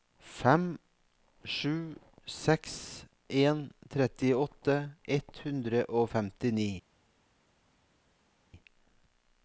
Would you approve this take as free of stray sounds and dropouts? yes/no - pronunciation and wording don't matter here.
yes